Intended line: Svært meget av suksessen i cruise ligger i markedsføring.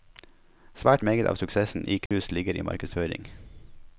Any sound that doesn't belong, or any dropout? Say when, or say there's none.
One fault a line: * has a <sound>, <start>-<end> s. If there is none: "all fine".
* has a dropout, 2.1-2.1 s